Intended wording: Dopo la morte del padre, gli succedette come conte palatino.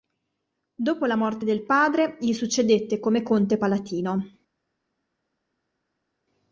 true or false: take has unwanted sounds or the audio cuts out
false